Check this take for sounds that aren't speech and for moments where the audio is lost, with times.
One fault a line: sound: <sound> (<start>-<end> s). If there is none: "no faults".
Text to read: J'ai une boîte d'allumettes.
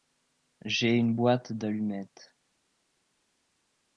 no faults